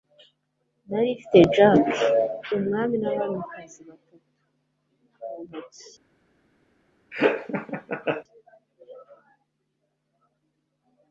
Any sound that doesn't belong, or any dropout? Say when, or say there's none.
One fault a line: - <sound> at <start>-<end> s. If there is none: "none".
- laugh at 7.1-8.2 s